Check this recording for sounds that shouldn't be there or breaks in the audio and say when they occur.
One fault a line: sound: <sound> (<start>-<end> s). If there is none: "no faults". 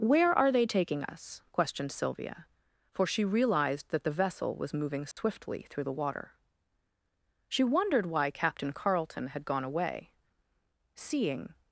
sound: dropout (5.1-5.2 s)